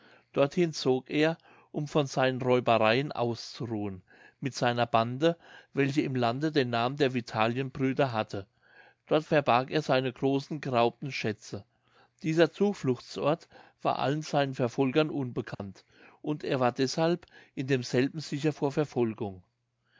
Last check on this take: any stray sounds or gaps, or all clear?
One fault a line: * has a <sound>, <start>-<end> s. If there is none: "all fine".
* has a dropout, 15.5-15.6 s